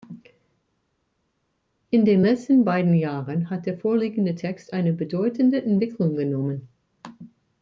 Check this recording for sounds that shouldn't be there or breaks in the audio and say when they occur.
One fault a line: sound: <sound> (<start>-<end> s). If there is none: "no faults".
no faults